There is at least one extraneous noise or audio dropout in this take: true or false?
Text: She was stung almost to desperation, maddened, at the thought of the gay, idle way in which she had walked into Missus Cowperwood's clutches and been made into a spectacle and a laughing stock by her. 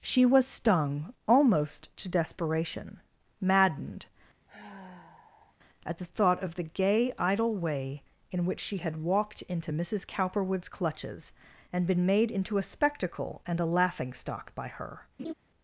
true